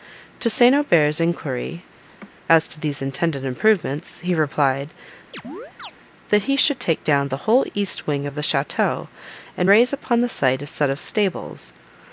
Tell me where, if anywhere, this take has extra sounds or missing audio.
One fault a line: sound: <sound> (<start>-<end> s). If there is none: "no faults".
sound: laugh (2.0-2.3 s)
sound: chirp (5.3-5.9 s)